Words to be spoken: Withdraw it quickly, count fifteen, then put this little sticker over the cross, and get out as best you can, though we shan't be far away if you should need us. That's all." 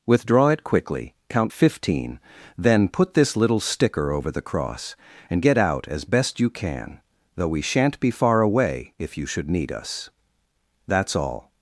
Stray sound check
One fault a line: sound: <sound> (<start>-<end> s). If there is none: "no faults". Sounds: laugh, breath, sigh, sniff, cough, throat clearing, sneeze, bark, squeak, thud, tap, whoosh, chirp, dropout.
no faults